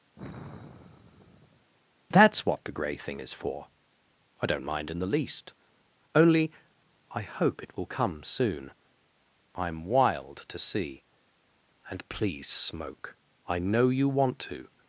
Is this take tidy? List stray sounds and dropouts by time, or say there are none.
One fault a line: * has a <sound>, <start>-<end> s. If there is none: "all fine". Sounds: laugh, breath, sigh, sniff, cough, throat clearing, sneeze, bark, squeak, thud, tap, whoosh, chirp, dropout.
* has a sigh, 0.2-1.7 s